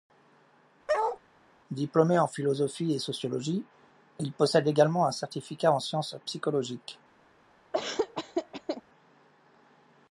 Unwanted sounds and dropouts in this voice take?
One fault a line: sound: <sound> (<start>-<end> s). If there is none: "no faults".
sound: bark (0.9-1.2 s)
sound: laugh (7.7-8.8 s)